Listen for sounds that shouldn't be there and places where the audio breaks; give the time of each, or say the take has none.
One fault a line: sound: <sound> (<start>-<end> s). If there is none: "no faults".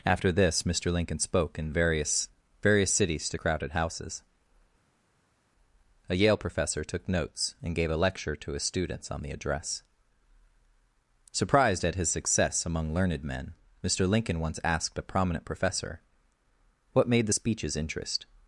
no faults